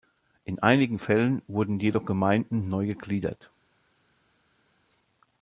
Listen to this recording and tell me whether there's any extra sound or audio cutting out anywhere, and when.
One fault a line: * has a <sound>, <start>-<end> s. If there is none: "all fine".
all fine